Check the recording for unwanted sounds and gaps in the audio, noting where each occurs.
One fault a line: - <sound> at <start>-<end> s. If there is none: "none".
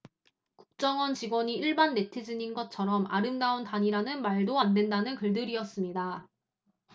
none